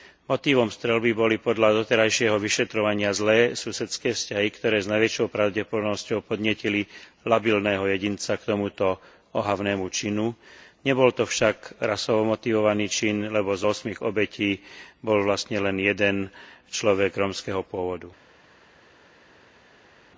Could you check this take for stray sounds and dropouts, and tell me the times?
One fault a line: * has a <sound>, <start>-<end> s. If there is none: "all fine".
all fine